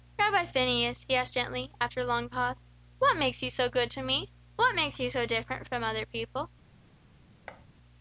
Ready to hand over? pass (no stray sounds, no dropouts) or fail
fail